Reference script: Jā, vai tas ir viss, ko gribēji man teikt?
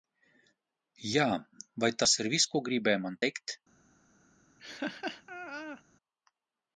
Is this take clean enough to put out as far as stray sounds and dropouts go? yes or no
no